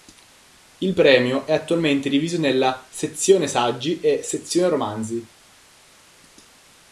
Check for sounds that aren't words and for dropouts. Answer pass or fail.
pass